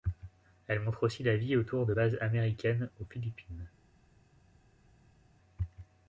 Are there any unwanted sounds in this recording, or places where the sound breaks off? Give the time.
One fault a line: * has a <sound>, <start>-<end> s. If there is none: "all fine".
all fine